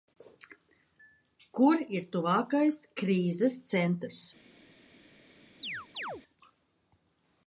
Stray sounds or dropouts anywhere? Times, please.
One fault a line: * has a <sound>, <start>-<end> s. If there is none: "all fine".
* has a chirp, 5.6-6.2 s